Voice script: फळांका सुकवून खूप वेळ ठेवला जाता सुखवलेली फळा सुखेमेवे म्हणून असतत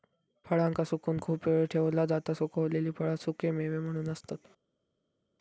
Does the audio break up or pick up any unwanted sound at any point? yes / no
no